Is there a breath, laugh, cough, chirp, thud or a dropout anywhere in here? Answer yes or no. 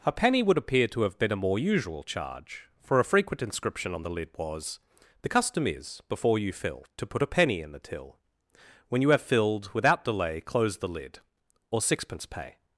no